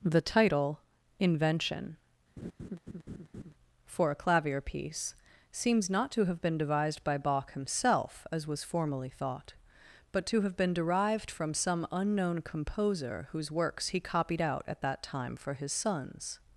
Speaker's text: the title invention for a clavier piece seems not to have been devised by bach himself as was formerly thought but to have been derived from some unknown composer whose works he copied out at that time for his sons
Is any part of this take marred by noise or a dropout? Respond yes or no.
yes